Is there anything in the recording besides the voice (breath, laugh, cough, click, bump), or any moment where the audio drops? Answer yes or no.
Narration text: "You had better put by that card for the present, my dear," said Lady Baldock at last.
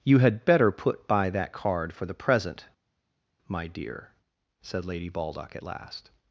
no